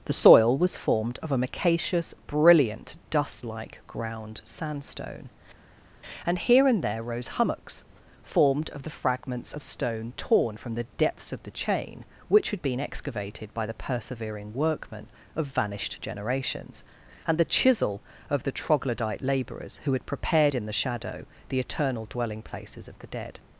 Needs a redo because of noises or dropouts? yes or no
no